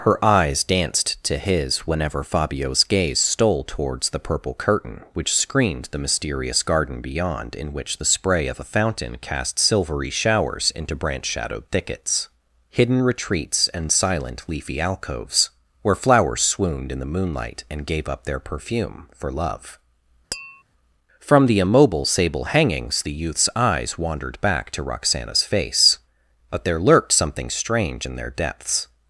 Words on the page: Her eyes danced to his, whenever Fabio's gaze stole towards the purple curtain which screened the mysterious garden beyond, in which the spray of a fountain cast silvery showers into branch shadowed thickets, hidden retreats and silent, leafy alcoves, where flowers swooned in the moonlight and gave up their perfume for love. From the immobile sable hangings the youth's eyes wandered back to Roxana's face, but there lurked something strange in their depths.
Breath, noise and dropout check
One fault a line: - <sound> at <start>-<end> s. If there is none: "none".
- tap at 20.3-20.6 s